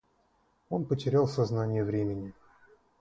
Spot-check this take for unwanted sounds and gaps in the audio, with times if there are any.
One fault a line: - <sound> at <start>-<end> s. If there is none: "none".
none